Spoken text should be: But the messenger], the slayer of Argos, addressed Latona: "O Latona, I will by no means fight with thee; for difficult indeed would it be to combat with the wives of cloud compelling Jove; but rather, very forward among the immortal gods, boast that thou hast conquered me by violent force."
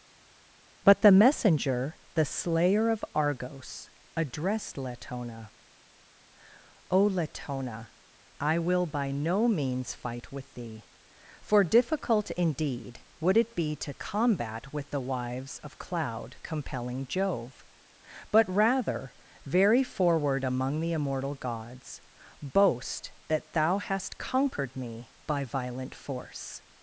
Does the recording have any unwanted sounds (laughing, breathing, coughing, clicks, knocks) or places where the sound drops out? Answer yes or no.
no